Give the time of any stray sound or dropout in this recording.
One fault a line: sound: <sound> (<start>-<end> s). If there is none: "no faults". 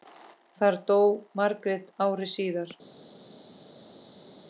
no faults